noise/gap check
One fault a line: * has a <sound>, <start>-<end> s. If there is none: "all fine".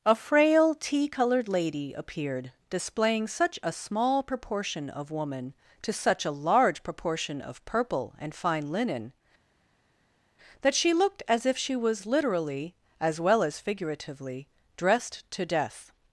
all fine